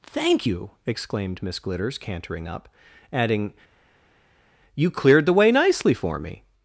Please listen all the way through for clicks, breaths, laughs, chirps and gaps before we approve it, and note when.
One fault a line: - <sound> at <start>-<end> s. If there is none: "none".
none